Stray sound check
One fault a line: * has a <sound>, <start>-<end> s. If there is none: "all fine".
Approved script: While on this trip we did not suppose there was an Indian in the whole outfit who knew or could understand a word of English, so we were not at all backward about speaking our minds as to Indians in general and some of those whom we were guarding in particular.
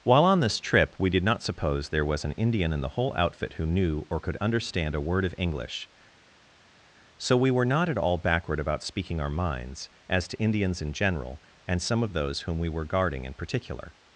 all fine